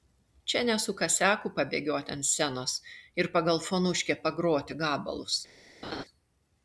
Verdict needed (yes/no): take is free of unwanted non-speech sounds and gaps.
no